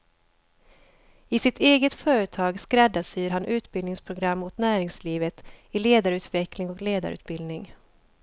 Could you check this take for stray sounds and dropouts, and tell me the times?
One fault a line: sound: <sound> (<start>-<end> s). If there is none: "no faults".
no faults